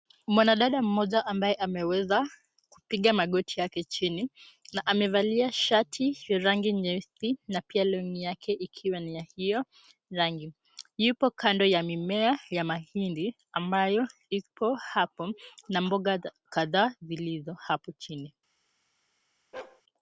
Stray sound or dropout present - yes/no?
yes